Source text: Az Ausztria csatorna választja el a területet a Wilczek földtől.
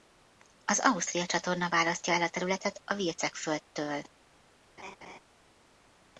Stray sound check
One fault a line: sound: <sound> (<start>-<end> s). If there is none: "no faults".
sound: laugh (4.8-5.2 s)